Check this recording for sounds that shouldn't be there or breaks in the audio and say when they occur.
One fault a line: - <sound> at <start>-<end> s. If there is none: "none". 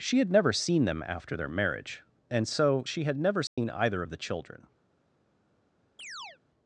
- dropout at 3.5-3.6 s
- chirp at 6.0-6.4 s